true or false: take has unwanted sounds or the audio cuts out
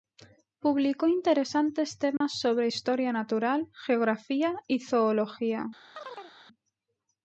true